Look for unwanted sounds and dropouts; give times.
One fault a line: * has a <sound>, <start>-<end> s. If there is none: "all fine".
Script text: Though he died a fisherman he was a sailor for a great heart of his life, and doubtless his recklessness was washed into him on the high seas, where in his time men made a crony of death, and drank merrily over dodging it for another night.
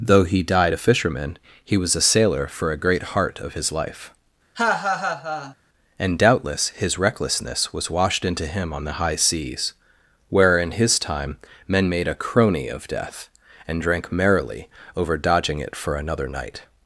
* has a laugh, 4.5-5.5 s